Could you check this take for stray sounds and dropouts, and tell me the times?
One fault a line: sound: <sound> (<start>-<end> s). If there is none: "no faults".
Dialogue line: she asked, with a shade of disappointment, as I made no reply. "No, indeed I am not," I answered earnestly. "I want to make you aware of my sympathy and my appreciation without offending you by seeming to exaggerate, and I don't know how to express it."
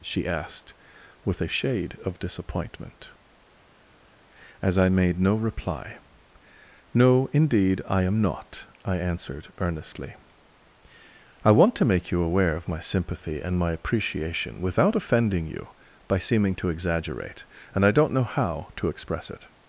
no faults